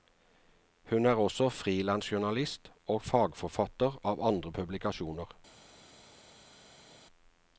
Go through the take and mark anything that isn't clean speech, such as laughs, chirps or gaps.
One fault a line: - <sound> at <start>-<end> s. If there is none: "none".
none